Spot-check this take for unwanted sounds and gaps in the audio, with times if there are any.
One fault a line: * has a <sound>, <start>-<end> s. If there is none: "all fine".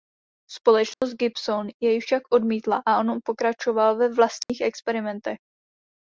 * has a dropout, 0.9-1.0 s
* has a dropout, 4.4-4.5 s